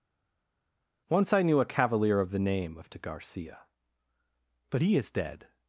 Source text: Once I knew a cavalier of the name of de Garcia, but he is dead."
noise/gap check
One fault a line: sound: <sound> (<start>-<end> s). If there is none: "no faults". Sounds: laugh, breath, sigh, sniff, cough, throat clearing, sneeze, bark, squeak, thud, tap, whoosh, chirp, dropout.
no faults